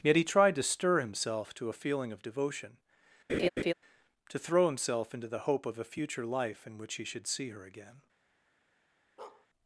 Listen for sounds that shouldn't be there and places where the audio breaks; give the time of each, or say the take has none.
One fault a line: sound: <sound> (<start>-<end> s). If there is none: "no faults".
sound: laugh (3.3-3.7 s)
sound: bark (9.2-9.5 s)